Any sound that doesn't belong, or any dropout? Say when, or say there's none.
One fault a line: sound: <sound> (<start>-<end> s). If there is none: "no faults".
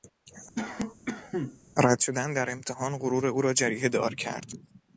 sound: cough (0.6-1.6 s)